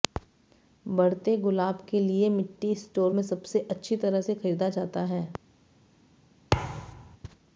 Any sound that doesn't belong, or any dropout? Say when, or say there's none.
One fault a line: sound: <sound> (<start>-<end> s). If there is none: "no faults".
sound: thud (6.5-7.2 s)